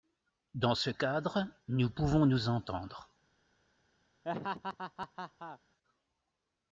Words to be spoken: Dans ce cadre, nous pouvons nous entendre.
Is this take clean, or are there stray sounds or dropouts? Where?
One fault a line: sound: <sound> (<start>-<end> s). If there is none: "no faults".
sound: laugh (4.2-5.6 s)